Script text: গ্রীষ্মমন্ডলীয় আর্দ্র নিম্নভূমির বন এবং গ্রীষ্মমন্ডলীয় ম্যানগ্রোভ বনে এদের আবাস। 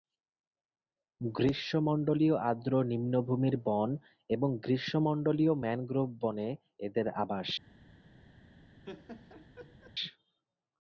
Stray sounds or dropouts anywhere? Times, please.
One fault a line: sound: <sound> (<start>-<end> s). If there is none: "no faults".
sound: laugh (8.8-9.9 s)